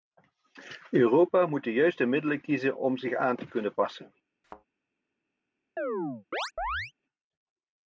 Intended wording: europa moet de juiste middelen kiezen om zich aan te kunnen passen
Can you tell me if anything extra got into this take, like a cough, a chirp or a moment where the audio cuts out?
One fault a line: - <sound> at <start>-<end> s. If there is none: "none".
- thud at 4.4-4.7 s
- chirp at 5.8-6.9 s